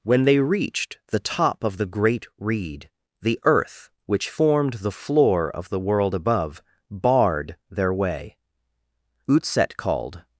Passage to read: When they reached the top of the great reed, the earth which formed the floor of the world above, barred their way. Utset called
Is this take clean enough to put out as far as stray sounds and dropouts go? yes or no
yes